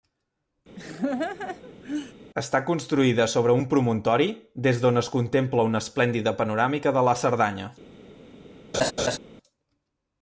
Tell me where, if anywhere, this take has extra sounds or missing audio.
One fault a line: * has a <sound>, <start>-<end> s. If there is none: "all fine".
* has a laugh, 0.8-2.1 s
* has a laugh, 8.7-9.2 s